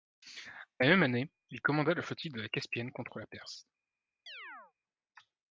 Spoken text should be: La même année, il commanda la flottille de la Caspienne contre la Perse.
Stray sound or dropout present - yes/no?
yes